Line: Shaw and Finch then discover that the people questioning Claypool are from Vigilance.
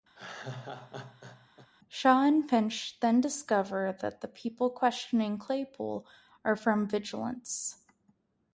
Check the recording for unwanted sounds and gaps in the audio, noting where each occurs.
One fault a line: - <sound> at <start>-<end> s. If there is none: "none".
- laugh at 0.1-1.7 s